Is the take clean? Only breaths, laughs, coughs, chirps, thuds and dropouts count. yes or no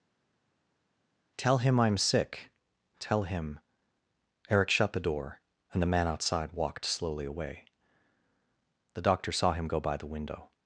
yes